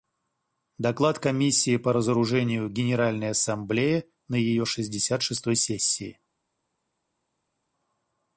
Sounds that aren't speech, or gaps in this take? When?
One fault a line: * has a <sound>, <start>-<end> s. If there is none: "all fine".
all fine